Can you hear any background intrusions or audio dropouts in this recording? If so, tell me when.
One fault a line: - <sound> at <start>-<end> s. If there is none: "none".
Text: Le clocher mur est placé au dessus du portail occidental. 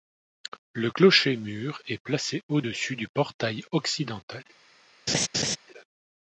- laugh at 5.1-5.6 s